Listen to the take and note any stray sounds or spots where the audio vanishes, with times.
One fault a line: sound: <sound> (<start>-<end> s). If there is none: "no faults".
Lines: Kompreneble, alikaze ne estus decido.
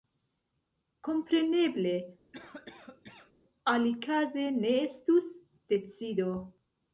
sound: cough (2.3-3.3 s)